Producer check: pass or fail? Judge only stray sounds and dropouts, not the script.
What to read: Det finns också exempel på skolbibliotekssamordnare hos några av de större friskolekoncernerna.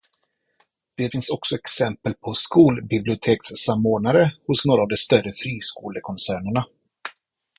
pass